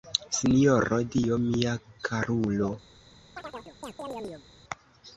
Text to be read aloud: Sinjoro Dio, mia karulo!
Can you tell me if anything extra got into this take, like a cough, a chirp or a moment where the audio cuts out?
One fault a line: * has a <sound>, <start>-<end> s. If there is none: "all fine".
* has a chirp, 3.4-4.5 s